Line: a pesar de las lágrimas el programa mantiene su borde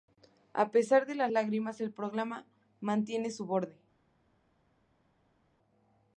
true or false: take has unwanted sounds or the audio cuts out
false